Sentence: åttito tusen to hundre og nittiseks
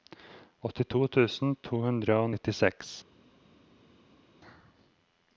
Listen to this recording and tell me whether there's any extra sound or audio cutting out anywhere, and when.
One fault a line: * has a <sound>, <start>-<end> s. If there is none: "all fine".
all fine